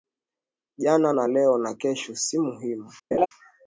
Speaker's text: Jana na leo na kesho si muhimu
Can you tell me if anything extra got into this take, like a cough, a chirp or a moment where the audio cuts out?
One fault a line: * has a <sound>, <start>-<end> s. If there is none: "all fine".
* has a laugh, 3.1-3.3 s